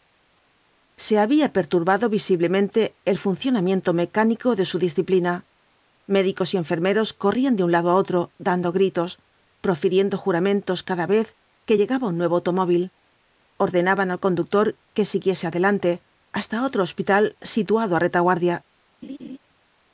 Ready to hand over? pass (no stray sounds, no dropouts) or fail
fail